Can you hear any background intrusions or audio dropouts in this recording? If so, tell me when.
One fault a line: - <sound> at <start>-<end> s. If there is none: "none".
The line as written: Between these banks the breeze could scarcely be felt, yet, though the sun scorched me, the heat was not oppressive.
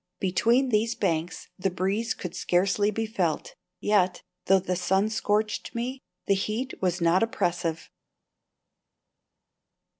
none